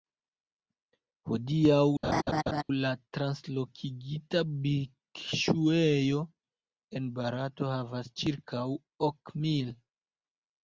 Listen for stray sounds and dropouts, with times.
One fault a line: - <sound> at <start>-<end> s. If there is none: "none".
- laugh at 2.0-2.6 s